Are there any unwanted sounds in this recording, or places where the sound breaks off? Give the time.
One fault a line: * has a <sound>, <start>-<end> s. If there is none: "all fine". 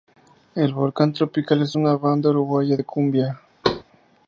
* has a thud, 3.6-3.8 s